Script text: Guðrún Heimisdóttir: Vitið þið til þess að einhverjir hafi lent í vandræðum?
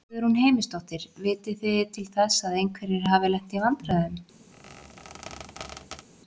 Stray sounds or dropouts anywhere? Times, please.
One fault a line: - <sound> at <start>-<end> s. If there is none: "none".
- squeak at 4.5-6.1 s